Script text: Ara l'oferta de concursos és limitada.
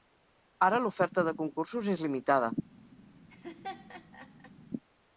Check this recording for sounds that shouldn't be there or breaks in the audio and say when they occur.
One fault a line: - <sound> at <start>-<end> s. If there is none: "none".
- laugh at 3.3-4.5 s